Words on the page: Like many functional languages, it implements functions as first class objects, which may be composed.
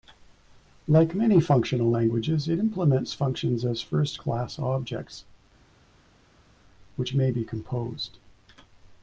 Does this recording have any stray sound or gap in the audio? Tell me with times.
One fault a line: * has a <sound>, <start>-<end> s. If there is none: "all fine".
all fine